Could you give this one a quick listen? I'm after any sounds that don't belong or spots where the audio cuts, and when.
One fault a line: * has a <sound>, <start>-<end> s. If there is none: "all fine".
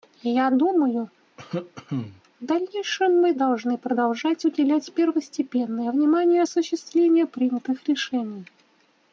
* has a cough, 1.4-2.2 s